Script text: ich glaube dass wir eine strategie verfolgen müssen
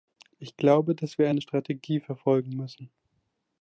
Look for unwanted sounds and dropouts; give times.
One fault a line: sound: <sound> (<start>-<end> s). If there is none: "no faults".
no faults